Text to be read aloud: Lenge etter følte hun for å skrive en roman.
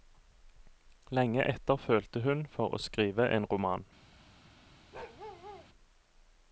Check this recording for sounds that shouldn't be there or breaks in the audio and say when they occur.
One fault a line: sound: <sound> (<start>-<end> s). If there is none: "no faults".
sound: bark (4.9-5.7 s)